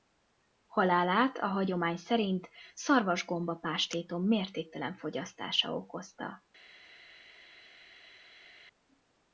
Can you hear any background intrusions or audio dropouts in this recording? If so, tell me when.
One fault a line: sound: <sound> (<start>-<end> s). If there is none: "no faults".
no faults